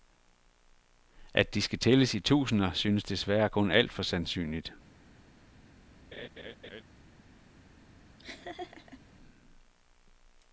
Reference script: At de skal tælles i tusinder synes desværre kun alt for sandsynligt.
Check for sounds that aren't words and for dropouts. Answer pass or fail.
fail